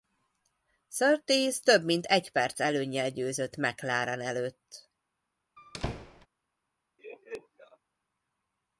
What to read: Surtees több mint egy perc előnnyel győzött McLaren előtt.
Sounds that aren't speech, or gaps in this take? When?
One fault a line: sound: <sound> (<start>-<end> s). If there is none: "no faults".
sound: squeak (5.6-6.3 s)
sound: laugh (7.0-7.8 s)